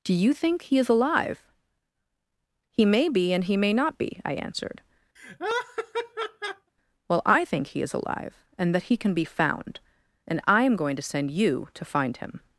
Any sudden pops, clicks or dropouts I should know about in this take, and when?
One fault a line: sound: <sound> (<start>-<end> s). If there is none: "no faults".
sound: laugh (5.2-6.7 s)